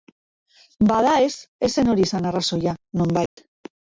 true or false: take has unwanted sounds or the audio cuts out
true